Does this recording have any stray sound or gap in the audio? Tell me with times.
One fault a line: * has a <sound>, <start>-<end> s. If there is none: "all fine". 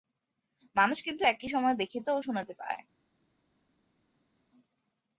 all fine